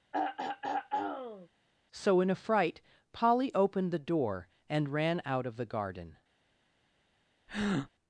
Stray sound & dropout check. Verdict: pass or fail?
fail